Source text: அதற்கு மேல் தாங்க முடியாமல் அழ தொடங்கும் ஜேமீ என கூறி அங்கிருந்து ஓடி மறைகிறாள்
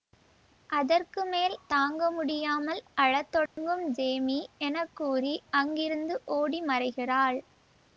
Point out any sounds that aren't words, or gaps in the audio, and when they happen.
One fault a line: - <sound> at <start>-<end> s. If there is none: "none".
- dropout at 3.5-3.6 s